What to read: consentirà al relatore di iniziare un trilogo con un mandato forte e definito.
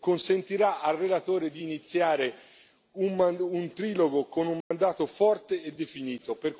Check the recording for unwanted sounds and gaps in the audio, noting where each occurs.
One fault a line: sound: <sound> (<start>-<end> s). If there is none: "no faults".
sound: dropout (4.6-4.7 s)